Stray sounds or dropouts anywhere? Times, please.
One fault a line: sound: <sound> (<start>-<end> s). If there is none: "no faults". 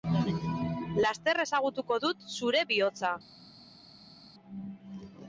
no faults